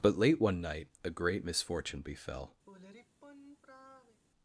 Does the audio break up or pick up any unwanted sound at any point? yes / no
yes